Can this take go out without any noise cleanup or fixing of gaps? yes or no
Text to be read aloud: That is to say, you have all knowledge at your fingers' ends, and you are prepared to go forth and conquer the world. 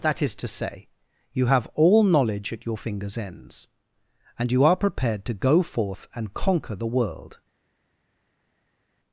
yes